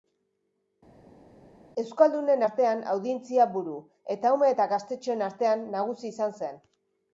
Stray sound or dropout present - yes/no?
no